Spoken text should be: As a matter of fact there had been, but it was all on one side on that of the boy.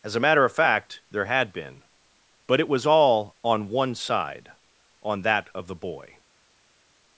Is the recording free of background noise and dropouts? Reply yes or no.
yes